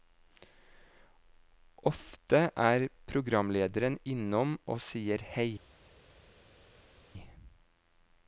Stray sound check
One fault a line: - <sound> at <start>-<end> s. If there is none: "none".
none